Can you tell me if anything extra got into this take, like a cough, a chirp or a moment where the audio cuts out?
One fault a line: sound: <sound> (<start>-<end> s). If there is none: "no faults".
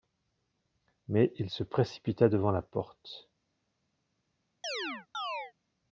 sound: chirp (4.6-5.5 s)